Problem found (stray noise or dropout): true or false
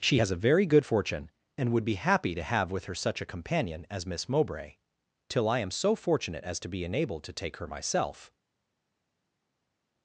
false